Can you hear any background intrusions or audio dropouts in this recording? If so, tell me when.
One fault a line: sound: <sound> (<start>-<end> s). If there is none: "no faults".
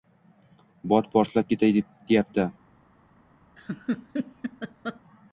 sound: laugh (3.6-5.0 s)